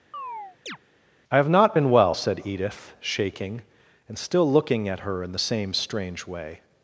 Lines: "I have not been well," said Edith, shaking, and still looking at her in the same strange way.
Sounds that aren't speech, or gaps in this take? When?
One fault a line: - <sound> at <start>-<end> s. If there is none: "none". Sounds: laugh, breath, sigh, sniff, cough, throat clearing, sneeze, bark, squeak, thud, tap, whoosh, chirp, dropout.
- chirp at 0.1-0.8 s